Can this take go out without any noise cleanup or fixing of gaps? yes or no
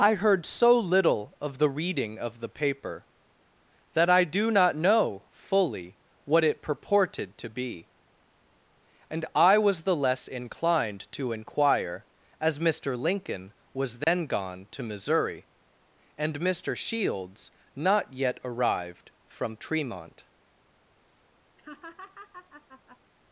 no